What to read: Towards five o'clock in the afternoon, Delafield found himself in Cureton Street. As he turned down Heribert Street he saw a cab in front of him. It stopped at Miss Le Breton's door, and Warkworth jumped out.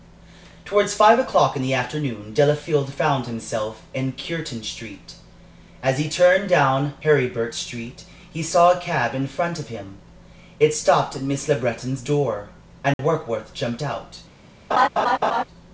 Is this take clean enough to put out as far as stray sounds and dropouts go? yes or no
no